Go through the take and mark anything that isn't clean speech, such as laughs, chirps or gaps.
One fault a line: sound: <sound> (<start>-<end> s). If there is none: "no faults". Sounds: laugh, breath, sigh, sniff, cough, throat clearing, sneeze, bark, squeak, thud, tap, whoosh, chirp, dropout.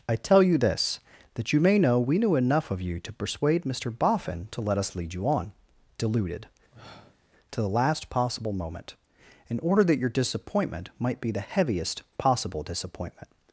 sound: sniff (6.7-7.2 s)